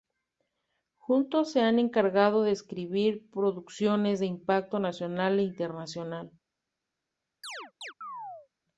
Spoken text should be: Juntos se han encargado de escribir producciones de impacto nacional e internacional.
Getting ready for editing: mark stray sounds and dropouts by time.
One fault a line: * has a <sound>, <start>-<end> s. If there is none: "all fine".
* has a chirp, 7.4-8.5 s